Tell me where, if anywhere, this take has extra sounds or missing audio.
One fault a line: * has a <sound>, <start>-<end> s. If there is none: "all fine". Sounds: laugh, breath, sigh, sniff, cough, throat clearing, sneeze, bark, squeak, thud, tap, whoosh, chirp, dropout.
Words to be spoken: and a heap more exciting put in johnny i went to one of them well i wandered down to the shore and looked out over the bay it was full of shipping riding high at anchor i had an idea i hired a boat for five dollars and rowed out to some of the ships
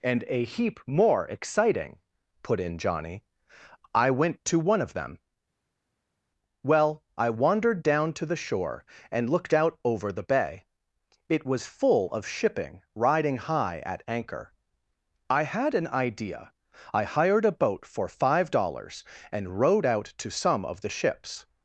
all fine